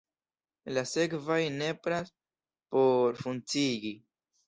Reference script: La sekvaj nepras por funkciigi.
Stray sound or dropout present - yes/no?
no